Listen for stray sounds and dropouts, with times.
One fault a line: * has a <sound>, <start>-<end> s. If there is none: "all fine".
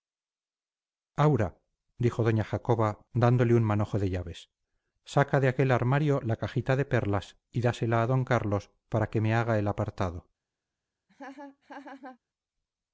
* has a laugh, 11.1-12.2 s